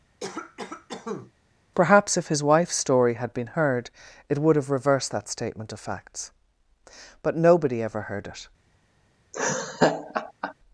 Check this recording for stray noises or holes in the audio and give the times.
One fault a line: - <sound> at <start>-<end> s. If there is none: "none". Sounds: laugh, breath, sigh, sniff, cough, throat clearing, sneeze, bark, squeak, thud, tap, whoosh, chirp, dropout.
- cough at 0.2-1.3 s
- laugh at 9.3-10.5 s